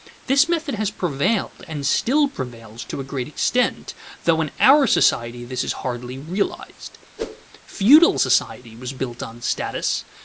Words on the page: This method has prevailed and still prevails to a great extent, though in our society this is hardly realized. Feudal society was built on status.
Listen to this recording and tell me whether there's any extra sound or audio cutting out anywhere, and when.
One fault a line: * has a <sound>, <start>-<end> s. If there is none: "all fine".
* has a whoosh, 7.2-7.5 s